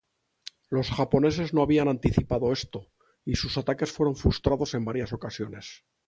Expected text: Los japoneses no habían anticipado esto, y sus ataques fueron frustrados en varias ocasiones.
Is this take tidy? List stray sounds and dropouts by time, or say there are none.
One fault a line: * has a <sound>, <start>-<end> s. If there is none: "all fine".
all fine